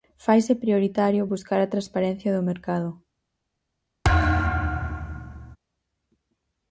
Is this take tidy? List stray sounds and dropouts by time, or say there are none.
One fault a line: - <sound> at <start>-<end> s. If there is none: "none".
- thud at 4.0-5.6 s